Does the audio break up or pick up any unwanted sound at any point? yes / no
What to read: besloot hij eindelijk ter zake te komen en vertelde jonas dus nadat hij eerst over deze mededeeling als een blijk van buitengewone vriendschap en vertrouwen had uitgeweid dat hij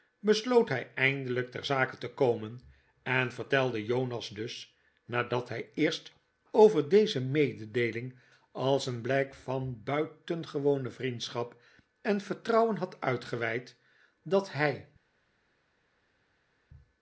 no